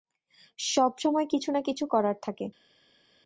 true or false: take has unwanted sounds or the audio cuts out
false